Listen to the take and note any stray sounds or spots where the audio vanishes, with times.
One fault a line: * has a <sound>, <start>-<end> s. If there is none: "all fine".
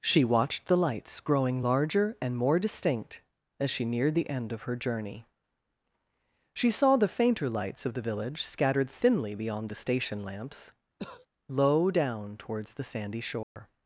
* has a cough, 11.0-11.3 s
* has a dropout, 13.4-13.6 s